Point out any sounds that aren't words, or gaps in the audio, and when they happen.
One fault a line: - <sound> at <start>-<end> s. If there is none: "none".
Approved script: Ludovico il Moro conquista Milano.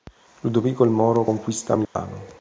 - dropout at 1.8-2.0 s